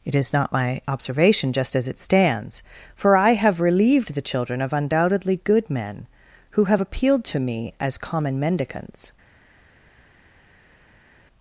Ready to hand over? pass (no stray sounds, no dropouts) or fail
pass